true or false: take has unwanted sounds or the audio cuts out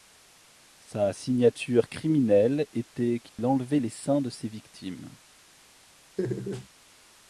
true